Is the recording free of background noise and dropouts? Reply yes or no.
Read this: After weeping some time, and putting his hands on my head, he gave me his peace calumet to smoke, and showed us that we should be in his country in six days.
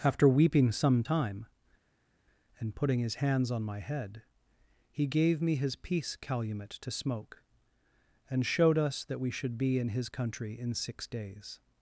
yes